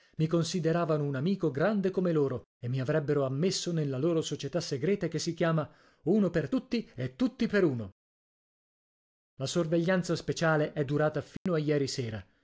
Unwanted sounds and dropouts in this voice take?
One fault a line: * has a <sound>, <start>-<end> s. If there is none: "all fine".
* has a dropout, 11.4-11.5 s